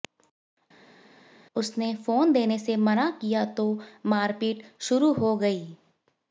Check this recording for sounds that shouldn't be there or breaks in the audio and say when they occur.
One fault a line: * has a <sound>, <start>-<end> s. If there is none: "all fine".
all fine